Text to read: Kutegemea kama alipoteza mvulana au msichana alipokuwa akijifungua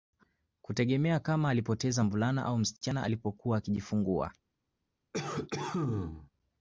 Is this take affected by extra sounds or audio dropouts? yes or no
yes